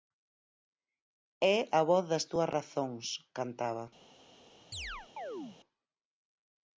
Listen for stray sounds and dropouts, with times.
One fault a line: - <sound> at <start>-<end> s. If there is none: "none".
- chirp at 4.7-5.6 s